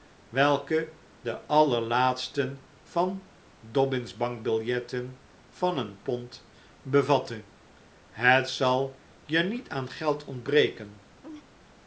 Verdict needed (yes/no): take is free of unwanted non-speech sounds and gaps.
no